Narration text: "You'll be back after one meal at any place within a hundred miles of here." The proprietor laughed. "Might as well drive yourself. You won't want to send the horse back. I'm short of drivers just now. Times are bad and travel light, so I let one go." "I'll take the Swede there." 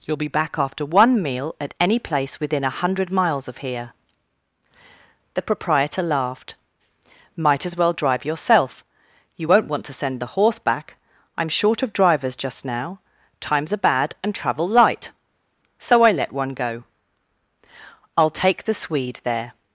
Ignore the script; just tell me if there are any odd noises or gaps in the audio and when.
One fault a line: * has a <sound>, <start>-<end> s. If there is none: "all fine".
all fine